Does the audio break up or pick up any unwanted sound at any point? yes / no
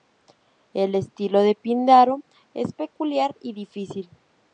no